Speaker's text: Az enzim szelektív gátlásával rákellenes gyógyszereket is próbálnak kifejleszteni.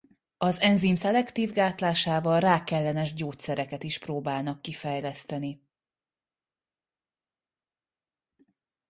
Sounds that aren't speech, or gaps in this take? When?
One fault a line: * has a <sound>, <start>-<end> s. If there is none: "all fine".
all fine